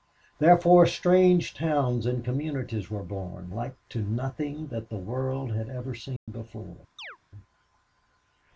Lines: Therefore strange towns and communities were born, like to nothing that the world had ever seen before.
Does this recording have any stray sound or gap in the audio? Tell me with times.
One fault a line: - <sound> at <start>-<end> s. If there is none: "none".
- dropout at 6.2-6.3 s
- chirp at 7.0-7.2 s